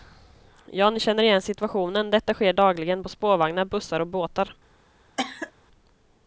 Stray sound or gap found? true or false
true